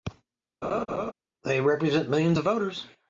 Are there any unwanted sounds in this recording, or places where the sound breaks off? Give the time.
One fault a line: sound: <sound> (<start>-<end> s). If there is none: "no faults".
sound: laugh (0.6-1.1 s)